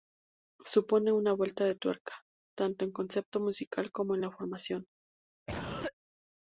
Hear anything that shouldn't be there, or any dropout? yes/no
yes